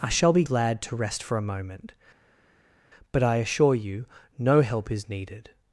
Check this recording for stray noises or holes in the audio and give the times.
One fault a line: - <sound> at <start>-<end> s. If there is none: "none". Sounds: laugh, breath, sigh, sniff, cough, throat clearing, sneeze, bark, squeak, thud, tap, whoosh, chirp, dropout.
none